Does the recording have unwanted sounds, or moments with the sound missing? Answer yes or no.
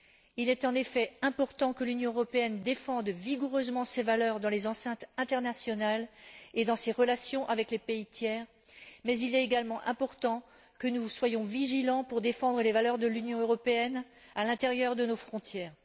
no